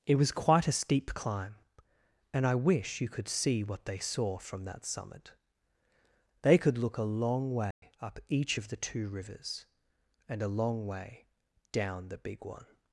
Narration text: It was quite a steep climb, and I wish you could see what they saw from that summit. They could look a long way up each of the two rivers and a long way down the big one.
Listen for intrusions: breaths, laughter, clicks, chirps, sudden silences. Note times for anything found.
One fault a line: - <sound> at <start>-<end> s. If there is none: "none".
- dropout at 7.7-7.8 s